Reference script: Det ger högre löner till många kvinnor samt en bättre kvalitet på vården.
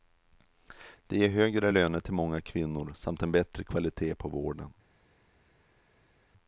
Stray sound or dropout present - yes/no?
no